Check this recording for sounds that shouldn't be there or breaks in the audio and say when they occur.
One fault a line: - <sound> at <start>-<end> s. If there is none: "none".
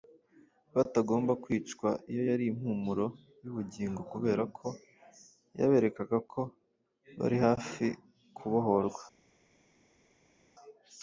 none